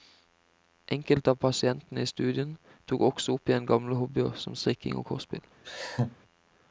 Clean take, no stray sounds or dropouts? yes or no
no